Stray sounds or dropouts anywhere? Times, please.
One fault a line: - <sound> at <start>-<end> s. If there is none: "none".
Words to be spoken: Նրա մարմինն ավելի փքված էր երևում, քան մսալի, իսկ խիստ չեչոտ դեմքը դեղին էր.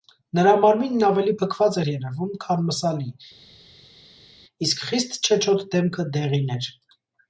none